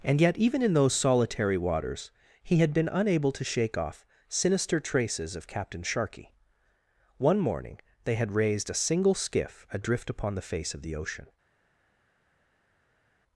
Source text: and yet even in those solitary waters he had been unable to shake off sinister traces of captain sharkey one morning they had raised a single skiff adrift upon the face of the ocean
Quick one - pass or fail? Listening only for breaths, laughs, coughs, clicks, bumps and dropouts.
pass